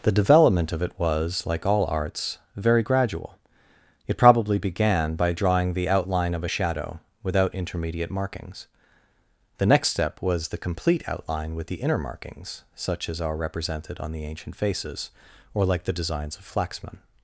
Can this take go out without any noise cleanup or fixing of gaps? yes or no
yes